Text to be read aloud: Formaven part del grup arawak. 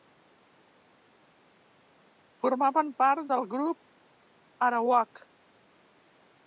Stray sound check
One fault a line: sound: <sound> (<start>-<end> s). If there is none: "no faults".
no faults